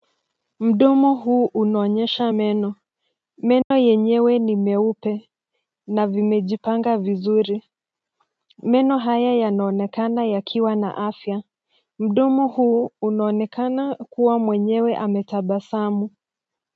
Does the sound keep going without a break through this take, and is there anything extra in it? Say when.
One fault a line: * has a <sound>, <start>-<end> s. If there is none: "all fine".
* has a dropout, 3.6-3.7 s